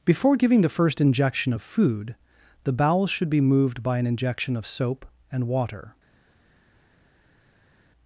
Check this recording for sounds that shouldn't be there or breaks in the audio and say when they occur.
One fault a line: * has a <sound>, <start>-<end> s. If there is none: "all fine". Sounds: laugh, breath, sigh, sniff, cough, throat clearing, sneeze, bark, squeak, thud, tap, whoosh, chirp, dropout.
all fine